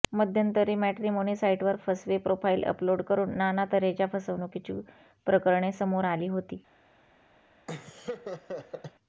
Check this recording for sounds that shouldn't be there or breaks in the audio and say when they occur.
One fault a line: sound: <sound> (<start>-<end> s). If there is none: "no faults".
sound: laugh (7.7-8.9 s)